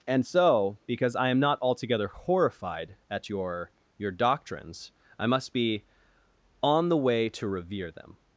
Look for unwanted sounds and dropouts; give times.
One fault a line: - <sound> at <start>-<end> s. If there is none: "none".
none